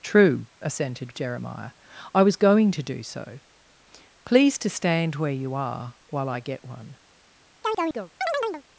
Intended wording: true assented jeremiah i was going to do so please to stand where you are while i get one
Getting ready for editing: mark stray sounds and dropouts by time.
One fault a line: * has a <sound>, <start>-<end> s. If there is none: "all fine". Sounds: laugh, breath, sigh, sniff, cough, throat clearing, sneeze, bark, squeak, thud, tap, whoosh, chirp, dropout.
* has a chirp, 7.6-8.6 s